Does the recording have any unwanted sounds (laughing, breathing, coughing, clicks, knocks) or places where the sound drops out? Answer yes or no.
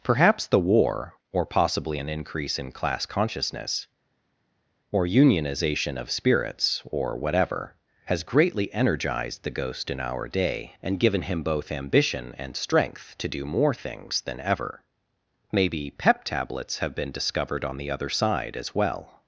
no